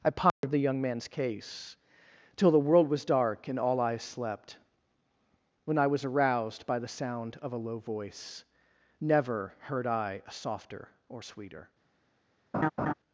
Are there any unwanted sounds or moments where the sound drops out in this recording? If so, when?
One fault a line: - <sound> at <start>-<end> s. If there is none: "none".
- dropout at 0.3-0.4 s
- laugh at 12.5-12.9 s